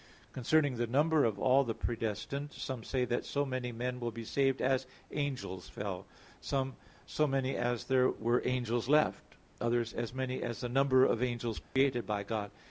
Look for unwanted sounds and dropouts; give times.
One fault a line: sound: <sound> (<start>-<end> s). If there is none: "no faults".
sound: dropout (11.6-11.8 s)